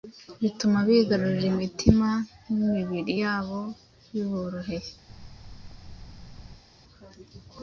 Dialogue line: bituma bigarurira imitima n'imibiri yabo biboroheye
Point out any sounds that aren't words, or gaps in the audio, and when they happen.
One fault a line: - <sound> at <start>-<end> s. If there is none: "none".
- thud at 5.1-6.6 s